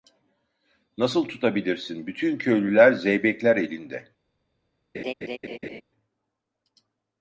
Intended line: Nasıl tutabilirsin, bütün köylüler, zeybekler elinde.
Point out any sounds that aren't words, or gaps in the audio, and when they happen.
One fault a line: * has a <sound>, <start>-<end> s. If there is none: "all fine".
* has a laugh, 4.9-5.8 s